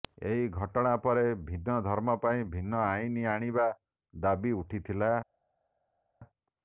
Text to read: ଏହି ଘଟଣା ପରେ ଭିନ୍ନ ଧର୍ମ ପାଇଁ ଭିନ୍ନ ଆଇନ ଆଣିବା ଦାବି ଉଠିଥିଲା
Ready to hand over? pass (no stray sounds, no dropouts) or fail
pass